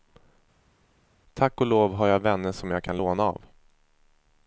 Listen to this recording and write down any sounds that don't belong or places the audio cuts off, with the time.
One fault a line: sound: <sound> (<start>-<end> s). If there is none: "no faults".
no faults